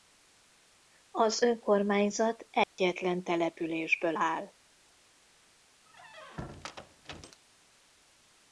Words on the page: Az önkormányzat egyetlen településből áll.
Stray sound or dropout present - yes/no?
yes